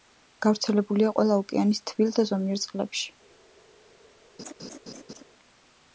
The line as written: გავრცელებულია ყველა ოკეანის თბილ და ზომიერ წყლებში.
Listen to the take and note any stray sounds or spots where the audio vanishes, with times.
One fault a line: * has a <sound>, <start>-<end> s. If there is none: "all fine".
* has a laugh, 4.4-5.2 s